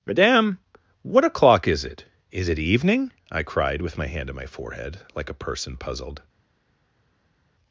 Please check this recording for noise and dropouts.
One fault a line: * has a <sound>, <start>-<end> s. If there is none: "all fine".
all fine